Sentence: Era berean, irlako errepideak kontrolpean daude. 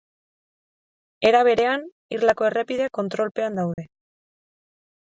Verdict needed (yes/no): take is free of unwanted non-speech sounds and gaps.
no